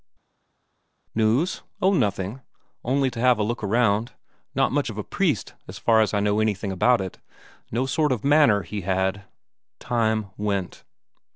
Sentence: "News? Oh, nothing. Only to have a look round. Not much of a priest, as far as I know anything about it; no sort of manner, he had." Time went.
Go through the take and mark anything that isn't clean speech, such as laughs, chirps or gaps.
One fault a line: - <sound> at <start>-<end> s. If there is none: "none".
none